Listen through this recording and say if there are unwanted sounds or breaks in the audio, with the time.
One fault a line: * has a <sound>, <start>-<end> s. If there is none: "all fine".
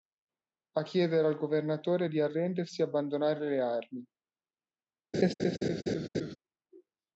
* has a laugh, 5.1-6.4 s